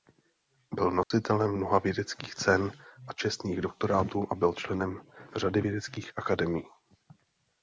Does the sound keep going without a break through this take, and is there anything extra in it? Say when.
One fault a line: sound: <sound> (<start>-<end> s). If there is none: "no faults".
sound: dropout (1.0-1.1 s)